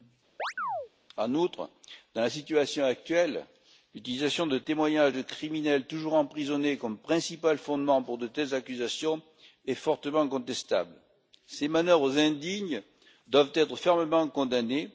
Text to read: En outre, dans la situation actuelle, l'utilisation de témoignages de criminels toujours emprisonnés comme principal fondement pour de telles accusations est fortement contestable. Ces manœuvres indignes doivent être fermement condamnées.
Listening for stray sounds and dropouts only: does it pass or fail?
fail